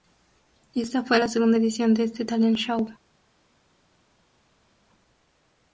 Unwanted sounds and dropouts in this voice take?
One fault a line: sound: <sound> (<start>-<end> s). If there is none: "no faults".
no faults